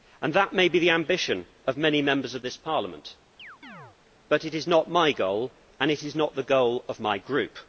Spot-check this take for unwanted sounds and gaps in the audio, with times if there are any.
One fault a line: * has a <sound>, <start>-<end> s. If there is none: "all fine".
* has a chirp, 3.4-4.0 s